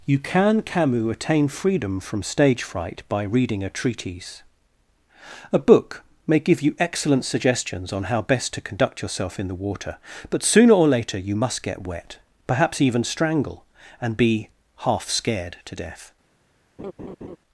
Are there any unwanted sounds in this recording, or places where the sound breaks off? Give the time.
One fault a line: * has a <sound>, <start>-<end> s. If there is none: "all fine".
* has a laugh, 16.8-17.4 s